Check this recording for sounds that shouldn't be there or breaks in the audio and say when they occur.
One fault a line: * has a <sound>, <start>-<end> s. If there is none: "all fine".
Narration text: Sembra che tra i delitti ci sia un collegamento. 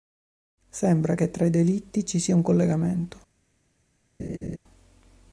* has a laugh, 4.2-4.6 s